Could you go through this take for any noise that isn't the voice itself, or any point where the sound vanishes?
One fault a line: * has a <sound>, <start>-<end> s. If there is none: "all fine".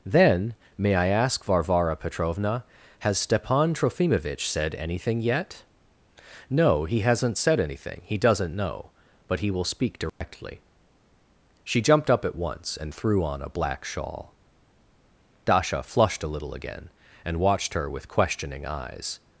* has a dropout, 10.1-10.2 s